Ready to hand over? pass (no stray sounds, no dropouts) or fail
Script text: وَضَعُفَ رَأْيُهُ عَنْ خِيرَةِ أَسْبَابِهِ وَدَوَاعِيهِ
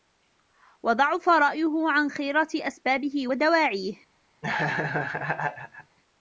fail